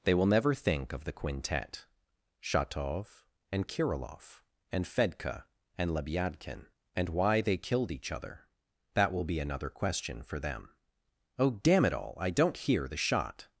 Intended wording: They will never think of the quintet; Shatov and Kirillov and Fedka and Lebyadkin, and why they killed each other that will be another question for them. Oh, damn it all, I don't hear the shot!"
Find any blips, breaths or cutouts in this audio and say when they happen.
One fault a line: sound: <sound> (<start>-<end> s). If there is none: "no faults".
no faults